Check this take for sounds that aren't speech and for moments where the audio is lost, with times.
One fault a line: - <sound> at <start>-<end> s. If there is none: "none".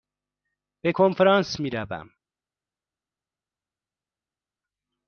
none